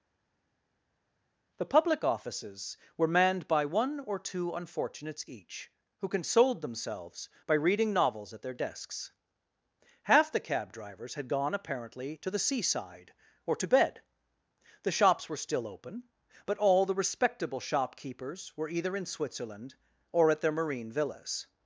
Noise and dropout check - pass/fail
pass